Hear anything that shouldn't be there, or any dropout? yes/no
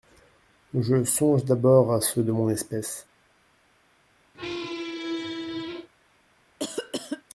yes